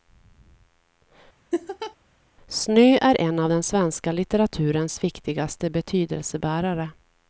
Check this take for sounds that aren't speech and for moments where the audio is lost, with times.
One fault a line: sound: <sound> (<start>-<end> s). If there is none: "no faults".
sound: laugh (1.5-2.0 s)